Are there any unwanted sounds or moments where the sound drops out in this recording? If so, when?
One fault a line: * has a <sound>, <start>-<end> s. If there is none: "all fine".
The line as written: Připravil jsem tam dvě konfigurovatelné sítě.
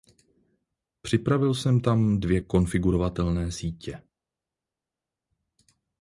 all fine